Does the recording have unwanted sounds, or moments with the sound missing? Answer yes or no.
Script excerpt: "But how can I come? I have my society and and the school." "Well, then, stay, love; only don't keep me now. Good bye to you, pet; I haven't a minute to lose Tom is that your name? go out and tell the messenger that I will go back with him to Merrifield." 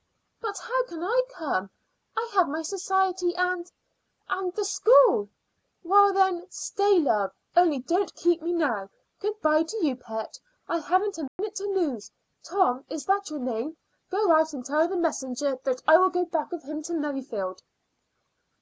yes